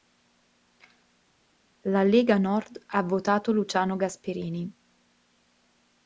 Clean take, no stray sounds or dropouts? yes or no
yes